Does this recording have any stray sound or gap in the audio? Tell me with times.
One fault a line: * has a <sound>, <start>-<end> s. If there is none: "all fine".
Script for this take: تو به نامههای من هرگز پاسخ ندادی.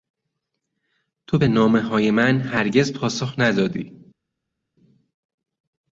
all fine